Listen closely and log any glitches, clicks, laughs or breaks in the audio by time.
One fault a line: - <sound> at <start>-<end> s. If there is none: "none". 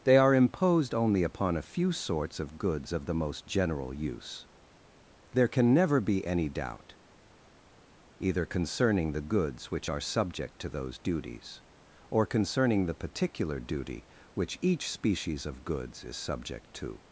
none